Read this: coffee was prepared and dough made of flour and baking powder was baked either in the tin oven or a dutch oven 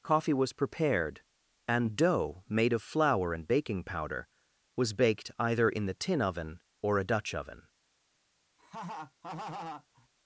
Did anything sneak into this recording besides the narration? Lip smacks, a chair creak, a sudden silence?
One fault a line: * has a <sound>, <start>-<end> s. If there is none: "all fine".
* has a laugh, 8.6-10.1 s